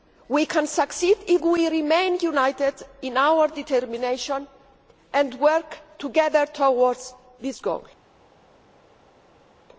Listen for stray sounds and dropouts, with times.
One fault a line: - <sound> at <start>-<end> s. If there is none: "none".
none